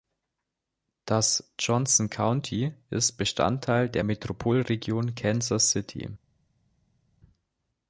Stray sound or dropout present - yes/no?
no